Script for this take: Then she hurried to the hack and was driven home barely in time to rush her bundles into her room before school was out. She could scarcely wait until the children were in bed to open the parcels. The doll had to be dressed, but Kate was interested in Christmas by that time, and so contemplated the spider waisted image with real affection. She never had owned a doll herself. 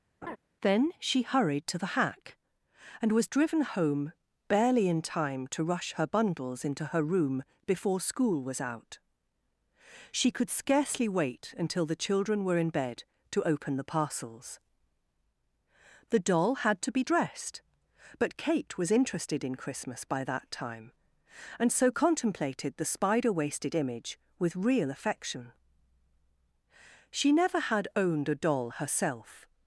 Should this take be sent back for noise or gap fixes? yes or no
yes